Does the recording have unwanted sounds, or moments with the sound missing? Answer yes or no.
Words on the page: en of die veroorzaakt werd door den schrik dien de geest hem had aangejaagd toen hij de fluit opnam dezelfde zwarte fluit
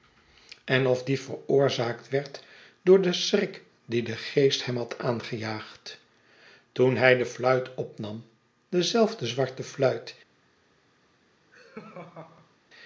yes